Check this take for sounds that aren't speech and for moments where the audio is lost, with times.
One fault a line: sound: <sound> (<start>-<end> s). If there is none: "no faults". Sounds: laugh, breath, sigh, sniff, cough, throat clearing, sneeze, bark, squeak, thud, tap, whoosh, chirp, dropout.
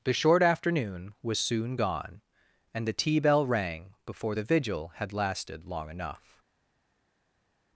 no faults